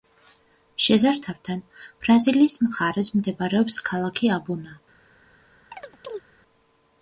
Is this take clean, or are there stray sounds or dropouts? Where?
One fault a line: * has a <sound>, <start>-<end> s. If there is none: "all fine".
* has a chirp, 5.7-6.2 s